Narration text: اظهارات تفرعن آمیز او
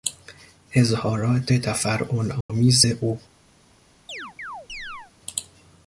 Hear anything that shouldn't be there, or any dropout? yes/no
yes